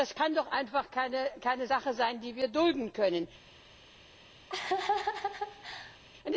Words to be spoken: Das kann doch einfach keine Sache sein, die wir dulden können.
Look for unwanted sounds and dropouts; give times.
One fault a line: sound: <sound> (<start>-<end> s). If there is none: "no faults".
sound: laugh (4.5-6.0 s)